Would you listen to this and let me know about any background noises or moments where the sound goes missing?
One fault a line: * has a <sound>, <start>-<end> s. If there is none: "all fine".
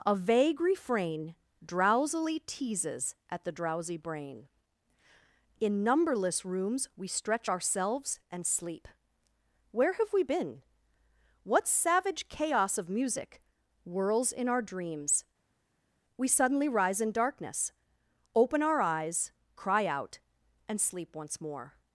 all fine